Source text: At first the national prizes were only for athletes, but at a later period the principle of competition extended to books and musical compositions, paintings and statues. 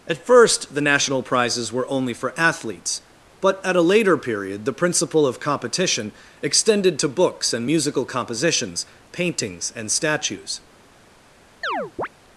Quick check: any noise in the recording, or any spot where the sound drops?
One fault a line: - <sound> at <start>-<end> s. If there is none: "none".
- chirp at 11.6-12.1 s